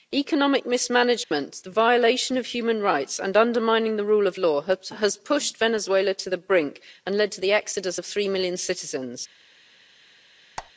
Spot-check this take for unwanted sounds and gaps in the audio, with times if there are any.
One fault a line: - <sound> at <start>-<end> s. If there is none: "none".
- dropout at 1.2-1.3 s
- squeak at 10.6-10.7 s